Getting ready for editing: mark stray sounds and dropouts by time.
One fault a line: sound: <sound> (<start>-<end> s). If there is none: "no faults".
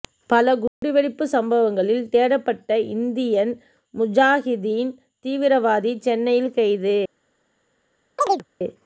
sound: dropout (0.7-0.8 s)
sound: chirp (8.2-8.5 s)